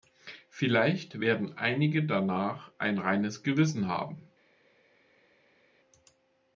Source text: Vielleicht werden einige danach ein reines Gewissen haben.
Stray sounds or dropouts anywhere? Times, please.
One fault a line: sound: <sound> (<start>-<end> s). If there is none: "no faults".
no faults